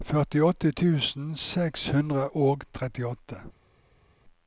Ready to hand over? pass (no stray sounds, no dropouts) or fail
pass